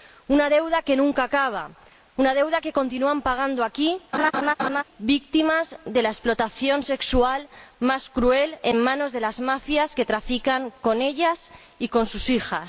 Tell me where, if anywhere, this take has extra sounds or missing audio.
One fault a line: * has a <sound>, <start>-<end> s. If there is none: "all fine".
* has a laugh, 4.1-4.8 s